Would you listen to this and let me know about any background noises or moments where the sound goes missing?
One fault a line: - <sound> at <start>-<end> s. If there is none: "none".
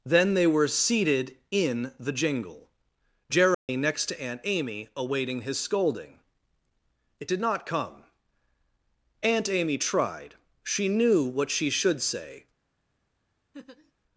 - dropout at 3.5-3.7 s
- laugh at 13.5-13.9 s